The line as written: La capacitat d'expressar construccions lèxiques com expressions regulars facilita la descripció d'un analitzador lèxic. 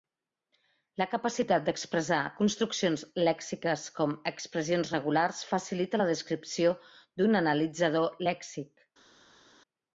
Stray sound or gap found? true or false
false